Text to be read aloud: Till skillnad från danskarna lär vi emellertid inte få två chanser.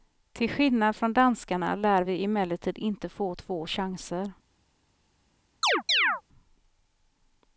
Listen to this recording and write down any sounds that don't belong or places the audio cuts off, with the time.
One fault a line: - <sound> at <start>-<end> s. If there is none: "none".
- chirp at 5.6-6.2 s